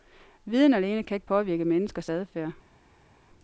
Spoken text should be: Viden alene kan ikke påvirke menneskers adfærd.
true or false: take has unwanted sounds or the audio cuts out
false